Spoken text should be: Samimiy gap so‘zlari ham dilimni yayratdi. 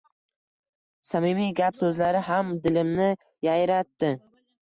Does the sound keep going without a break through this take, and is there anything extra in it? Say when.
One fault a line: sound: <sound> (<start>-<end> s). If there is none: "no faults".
no faults